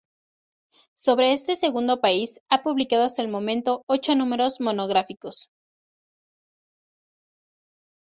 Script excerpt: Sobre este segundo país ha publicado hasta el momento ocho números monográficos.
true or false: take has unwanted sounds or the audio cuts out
false